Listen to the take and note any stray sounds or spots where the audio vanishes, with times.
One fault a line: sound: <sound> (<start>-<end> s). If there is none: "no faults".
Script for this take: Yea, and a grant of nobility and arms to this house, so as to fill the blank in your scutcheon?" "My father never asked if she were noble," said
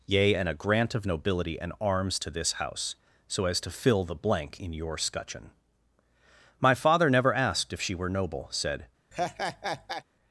sound: laugh (9.1-10.0 s)